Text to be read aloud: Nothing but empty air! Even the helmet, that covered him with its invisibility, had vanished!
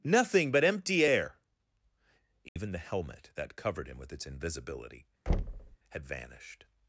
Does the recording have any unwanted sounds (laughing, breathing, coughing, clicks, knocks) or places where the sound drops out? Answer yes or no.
yes